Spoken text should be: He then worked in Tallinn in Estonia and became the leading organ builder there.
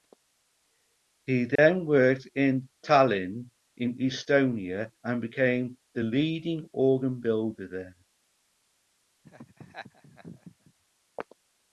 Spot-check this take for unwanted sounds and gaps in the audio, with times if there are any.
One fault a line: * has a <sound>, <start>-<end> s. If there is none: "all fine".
* has a dropout, 1.6-1.6 s
* has a laugh, 9.2-10.7 s